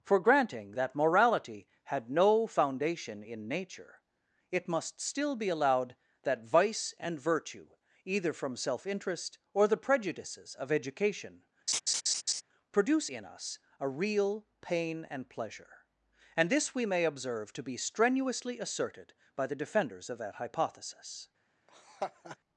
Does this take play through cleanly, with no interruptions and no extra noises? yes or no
no